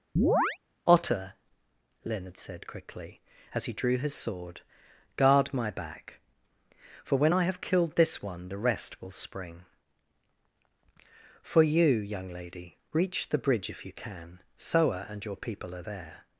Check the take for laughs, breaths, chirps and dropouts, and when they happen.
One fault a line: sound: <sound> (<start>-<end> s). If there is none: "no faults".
sound: chirp (0.2-0.6 s)